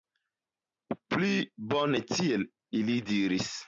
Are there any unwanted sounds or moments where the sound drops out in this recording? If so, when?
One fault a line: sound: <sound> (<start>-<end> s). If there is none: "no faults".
no faults